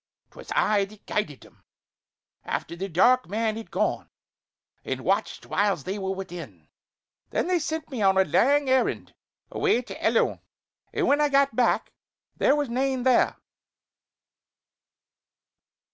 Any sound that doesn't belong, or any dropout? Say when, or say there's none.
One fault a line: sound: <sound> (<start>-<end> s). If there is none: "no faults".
no faults